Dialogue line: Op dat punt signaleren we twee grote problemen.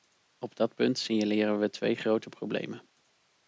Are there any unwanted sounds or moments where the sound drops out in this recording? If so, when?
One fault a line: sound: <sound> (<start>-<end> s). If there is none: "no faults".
no faults